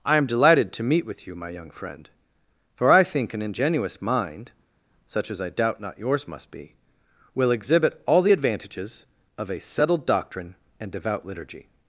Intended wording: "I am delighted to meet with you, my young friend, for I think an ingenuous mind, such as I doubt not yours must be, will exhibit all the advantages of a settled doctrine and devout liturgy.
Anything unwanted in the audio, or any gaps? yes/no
no